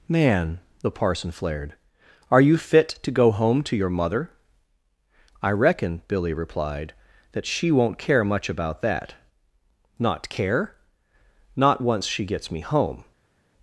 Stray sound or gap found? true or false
false